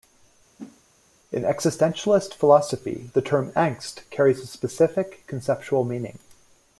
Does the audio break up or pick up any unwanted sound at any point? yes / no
yes